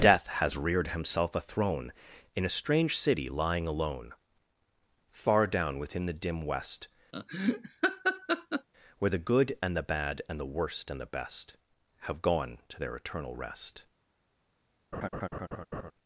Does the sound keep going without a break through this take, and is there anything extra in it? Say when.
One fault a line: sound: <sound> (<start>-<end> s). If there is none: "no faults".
sound: laugh (7.1-8.7 s)
sound: laugh (14.9-15.9 s)